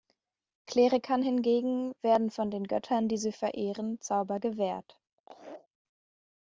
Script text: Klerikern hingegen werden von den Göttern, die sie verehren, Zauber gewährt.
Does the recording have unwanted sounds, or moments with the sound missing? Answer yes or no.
yes